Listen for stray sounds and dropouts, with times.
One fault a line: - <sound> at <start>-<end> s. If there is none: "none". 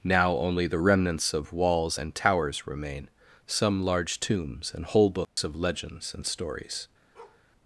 - dropout at 5.2-5.4 s
- bark at 7.1-7.4 s